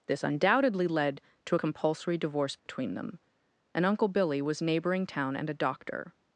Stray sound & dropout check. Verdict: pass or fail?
fail